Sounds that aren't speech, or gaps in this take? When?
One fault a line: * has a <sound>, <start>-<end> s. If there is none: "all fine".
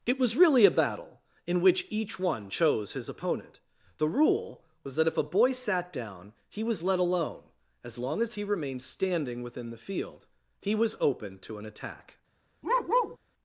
* has a bark, 12.6-13.2 s